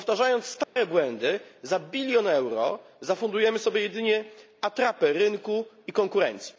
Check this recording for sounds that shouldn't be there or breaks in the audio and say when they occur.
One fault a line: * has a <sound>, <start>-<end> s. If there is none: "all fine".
* has a dropout, 0.6-0.8 s